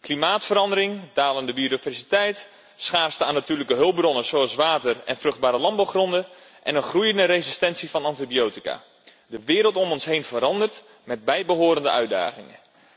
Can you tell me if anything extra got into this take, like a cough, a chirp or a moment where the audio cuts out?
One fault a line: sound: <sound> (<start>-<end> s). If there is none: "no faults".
no faults